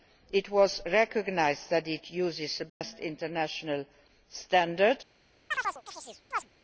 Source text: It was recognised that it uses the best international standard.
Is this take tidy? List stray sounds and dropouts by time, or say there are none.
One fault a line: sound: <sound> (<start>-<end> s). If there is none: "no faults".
sound: dropout (2.7-2.8 s)
sound: chirp (5.5-6.5 s)